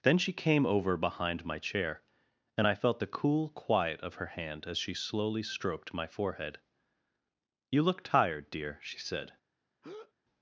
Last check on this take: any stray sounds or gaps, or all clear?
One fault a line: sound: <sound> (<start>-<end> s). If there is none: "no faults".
sound: breath (9.8-10.1 s)